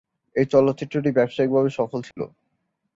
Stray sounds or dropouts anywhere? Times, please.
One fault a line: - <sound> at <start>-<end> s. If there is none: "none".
- dropout at 2.1-2.2 s